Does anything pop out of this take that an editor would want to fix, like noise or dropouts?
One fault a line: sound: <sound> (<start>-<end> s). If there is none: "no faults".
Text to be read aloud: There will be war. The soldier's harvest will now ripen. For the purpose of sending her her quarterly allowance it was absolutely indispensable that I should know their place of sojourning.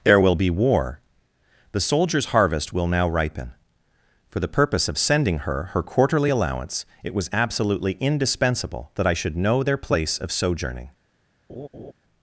sound: laugh (11.5-11.9 s)